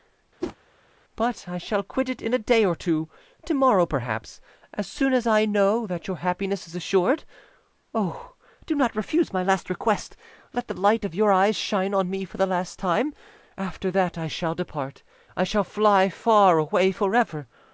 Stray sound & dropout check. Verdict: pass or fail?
fail